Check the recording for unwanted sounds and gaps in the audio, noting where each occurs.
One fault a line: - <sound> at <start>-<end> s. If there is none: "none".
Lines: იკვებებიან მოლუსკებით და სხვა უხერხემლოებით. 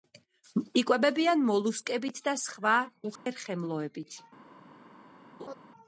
- dropout at 3.2-3.3 s
- laugh at 5.4-5.5 s